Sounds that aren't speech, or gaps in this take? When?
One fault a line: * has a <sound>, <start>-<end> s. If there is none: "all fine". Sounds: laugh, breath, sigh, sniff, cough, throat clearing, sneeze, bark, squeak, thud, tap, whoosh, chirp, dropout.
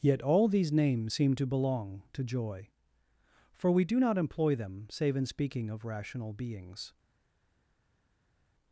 all fine